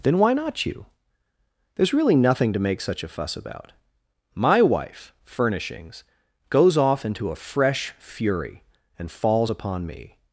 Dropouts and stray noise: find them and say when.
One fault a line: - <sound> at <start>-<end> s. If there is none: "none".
none